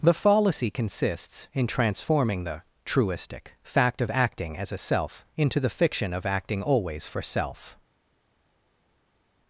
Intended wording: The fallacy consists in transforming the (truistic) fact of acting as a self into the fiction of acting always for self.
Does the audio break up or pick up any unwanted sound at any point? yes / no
no